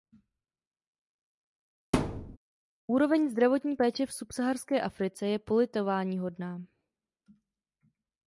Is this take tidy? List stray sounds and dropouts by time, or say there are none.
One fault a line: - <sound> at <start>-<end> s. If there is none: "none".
- thud at 1.9-2.4 s